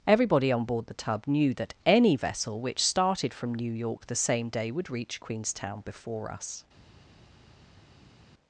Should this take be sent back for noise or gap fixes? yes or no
no